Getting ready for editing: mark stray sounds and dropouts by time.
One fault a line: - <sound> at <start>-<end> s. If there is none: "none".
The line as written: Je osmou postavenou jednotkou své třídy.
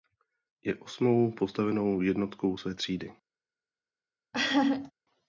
- laugh at 4.3-4.9 s